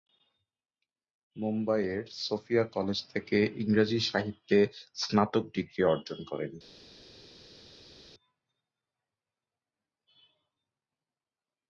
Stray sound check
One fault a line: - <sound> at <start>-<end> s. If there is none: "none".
none